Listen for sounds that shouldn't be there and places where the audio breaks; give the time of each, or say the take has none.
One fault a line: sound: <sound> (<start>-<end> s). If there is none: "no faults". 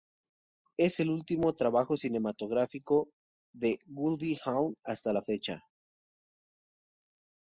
no faults